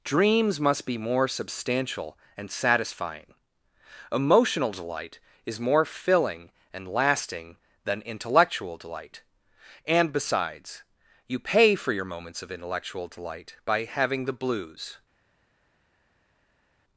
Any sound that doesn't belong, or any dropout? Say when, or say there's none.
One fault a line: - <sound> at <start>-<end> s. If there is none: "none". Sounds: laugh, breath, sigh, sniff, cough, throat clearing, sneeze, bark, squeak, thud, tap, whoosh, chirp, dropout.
none